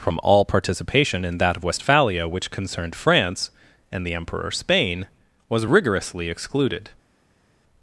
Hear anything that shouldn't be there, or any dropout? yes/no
no